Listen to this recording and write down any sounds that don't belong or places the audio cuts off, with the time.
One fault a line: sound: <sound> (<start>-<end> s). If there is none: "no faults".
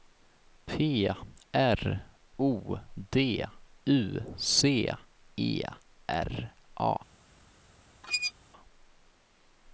sound: squeak (8.0-8.3 s)